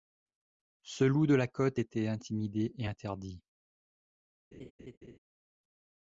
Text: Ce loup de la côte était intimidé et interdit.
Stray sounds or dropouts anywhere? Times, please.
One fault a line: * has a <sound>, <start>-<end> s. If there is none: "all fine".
* has a laugh, 4.5-5.2 s